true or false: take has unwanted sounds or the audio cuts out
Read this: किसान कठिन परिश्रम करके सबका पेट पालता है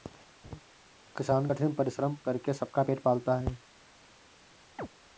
true